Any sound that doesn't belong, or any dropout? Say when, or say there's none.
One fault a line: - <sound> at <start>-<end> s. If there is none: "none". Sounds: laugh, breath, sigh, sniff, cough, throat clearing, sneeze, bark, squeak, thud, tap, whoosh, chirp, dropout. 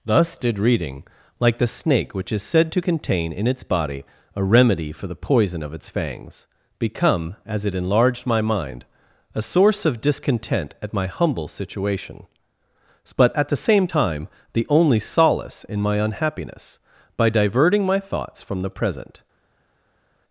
none